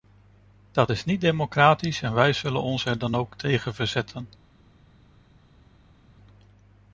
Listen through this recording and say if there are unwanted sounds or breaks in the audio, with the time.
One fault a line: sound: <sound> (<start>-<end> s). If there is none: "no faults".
no faults